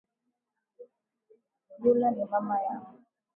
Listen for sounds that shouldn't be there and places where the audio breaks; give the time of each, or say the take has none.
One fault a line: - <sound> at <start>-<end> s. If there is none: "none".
none